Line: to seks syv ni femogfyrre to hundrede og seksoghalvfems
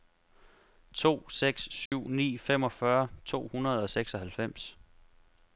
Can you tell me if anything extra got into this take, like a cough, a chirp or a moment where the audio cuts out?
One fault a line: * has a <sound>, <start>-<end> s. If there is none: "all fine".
* has a dropout, 1.9-1.9 s